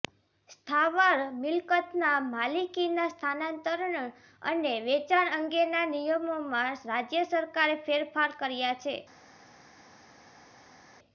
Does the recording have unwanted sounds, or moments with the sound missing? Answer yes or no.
no